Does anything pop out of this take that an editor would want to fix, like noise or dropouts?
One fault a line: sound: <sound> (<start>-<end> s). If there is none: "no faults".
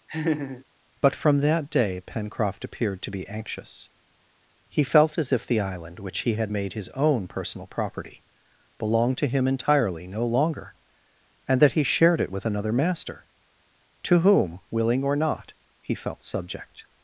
sound: laugh (0.1-0.6 s)